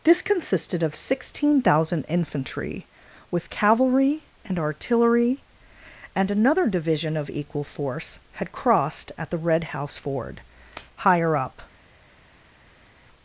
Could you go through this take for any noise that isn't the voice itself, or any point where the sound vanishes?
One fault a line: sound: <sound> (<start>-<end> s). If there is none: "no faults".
no faults